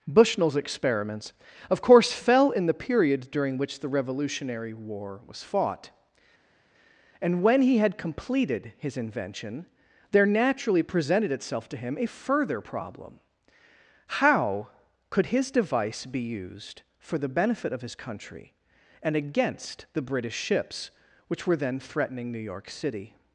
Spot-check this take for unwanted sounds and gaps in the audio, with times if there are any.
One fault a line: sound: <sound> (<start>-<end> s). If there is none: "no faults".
no faults